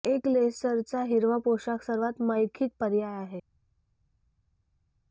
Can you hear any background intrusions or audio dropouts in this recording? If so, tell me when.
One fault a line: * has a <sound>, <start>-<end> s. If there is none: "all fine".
all fine